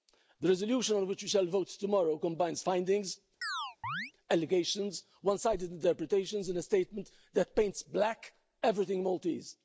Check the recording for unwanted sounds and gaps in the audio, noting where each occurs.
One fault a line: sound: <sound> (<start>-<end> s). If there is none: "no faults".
sound: chirp (3.4-4.1 s)